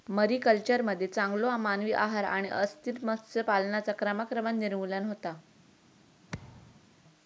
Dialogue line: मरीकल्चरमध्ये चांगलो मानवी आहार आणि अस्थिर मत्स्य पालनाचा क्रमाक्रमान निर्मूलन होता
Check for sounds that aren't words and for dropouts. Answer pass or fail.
fail